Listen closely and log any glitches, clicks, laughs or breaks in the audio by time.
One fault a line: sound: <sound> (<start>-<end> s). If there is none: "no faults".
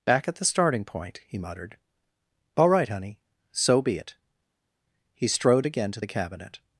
no faults